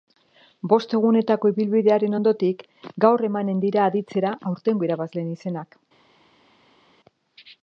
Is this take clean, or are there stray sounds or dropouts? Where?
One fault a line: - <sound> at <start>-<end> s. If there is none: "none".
none